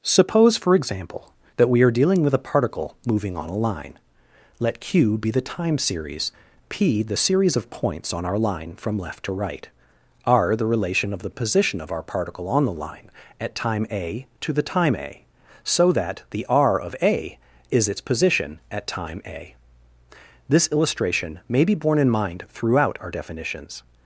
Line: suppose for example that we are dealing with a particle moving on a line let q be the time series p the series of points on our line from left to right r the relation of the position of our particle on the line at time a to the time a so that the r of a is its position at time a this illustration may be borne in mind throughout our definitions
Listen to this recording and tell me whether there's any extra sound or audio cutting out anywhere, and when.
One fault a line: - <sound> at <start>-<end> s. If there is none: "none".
none